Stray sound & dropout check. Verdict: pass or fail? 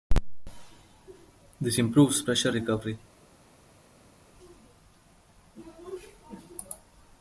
pass